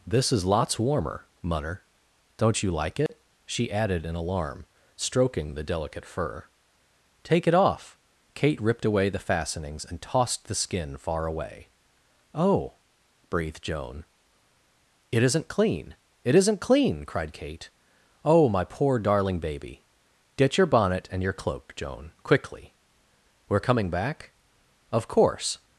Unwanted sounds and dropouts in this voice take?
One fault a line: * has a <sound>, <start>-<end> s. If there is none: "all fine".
* has a dropout, 3.1-3.1 s